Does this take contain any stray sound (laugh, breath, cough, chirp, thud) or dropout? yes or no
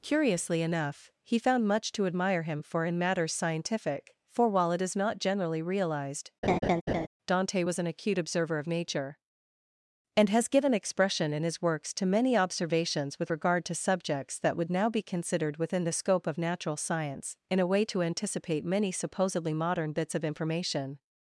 yes